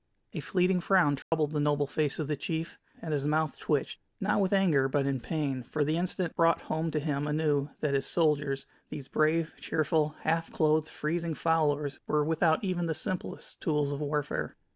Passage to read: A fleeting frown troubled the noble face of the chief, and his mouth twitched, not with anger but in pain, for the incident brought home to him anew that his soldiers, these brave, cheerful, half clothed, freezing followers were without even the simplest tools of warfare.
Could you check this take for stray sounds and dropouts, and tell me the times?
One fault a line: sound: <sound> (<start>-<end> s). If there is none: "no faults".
sound: dropout (1.2-1.3 s)